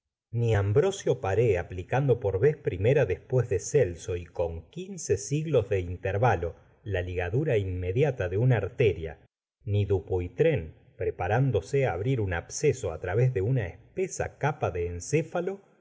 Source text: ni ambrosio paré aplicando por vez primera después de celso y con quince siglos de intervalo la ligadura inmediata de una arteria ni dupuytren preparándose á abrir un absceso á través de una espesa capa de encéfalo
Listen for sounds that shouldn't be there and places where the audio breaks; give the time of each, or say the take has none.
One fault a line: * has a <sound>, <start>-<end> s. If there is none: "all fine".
all fine